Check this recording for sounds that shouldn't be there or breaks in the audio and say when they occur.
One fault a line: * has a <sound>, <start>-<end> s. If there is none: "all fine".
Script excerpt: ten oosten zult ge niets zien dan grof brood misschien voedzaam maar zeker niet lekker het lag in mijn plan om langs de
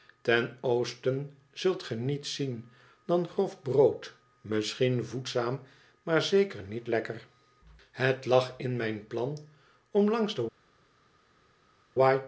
all fine